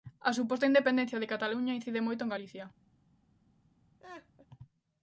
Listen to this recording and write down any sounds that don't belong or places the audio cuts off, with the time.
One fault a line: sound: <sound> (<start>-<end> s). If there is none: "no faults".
sound: laugh (4.0-4.5 s)